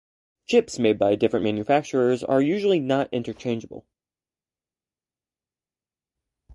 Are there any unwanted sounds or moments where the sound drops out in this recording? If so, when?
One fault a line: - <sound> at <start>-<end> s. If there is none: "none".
none